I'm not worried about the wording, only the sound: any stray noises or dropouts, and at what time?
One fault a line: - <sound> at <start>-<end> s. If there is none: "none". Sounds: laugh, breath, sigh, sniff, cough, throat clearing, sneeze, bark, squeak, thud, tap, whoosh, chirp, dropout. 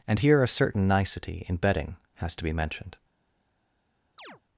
- chirp at 4.2-4.4 s